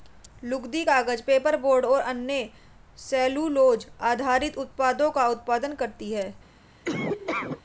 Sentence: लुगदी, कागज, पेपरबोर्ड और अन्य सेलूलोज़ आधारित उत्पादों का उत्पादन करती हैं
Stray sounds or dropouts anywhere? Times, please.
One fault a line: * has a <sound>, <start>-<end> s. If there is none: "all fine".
* has a laugh, 6.8-7.6 s